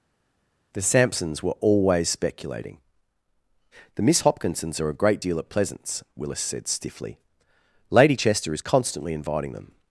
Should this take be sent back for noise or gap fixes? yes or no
no